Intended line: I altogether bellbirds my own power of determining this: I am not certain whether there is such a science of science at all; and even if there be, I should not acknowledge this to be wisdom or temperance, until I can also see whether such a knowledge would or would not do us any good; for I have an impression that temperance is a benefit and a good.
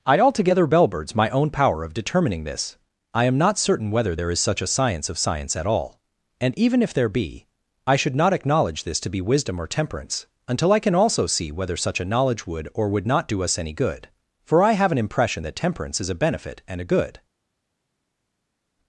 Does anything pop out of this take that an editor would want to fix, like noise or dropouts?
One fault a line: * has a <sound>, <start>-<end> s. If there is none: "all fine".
all fine